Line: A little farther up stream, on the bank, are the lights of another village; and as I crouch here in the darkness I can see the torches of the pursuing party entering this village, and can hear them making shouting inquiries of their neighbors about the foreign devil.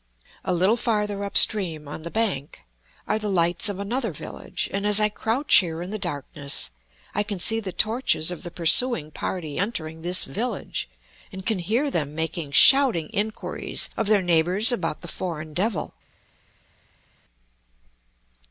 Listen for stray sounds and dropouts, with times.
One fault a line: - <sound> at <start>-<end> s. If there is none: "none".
none